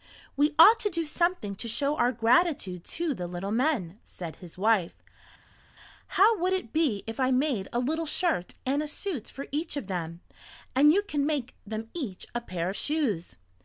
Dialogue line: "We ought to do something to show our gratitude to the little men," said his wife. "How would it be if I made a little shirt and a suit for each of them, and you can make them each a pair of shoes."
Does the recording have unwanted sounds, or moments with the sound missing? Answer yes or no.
no